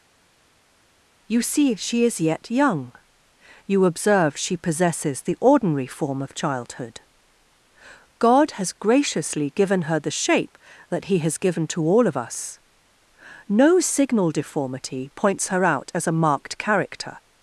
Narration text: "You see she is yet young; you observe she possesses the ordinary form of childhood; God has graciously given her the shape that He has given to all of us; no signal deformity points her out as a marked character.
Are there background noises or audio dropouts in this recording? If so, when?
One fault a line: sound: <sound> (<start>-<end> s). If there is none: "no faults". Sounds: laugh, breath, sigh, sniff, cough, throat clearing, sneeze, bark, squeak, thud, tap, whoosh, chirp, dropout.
no faults